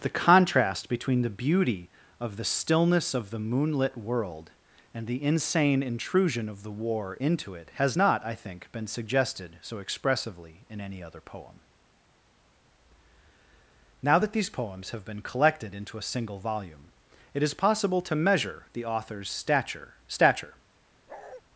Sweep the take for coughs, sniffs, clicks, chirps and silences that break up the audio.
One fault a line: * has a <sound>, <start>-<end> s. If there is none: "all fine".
* has a bark, 21.1-21.4 s